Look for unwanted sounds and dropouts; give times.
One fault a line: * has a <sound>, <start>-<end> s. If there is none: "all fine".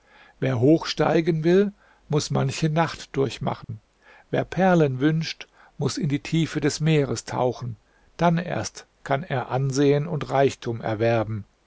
* has a dropout, 3.6-3.7 s